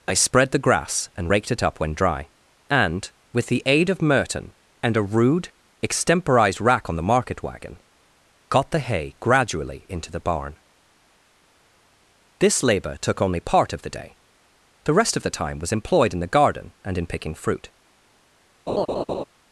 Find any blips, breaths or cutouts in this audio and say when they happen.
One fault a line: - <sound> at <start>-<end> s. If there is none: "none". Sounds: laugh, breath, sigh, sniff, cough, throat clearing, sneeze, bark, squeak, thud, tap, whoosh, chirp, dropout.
- laugh at 18.7-19.2 s